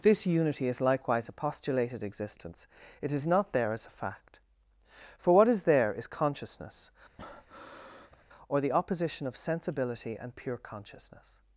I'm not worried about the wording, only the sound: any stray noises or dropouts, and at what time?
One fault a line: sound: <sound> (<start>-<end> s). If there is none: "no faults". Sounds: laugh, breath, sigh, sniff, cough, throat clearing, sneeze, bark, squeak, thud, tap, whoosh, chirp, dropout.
sound: breath (7.2-8.2 s)